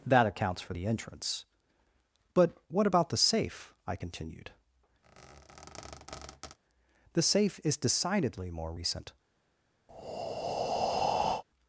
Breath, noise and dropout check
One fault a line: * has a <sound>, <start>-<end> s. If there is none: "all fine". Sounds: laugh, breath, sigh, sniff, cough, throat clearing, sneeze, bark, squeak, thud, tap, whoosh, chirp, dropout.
* has a squeak, 5.0-6.6 s
* has a breath, 9.9-11.4 s